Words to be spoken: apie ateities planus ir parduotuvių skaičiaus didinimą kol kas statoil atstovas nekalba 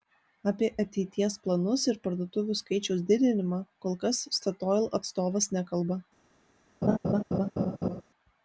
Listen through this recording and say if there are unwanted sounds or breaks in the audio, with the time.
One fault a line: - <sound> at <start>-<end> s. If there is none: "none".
- laugh at 6.8-8.0 s